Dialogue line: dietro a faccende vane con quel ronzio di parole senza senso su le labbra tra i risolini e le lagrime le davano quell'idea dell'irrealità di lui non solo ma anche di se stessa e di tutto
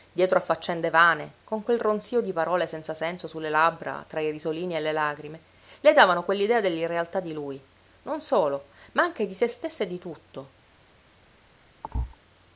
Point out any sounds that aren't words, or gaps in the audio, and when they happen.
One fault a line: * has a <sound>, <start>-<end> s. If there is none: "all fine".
* has a thud, 11.8-12.2 s